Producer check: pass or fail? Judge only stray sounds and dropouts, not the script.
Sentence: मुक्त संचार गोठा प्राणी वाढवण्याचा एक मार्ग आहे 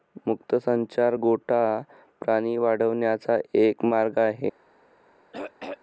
fail